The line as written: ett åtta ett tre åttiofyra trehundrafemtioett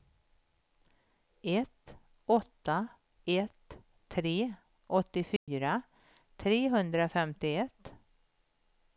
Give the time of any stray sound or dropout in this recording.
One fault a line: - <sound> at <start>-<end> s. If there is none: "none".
- dropout at 5.4-5.5 s